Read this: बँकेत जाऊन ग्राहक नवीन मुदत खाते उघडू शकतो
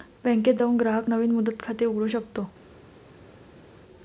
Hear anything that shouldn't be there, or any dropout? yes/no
no